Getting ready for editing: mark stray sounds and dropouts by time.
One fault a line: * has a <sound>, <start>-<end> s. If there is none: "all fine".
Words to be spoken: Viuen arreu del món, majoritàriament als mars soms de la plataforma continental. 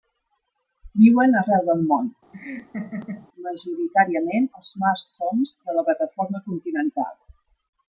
* has a laugh, 2.3-3.3 s